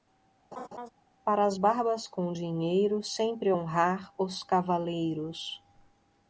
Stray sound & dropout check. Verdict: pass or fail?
fail